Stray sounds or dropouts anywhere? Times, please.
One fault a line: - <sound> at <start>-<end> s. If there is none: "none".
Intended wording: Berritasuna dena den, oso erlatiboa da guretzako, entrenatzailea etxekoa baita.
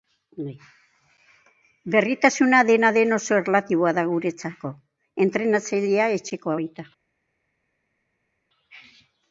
none